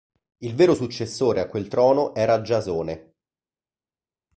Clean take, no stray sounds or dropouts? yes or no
yes